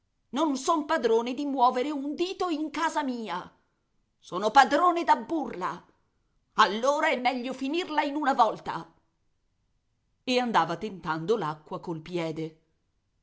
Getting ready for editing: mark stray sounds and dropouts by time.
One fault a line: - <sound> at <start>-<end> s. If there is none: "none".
none